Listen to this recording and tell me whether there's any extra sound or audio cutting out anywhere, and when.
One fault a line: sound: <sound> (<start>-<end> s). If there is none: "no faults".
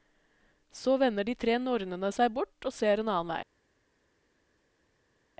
no faults